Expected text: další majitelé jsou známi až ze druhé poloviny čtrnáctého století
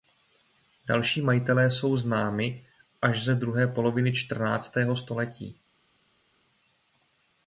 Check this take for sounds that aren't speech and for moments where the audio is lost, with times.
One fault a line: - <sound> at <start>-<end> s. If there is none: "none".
none